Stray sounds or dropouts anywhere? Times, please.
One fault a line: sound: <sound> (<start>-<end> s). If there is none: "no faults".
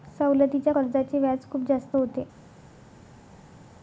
no faults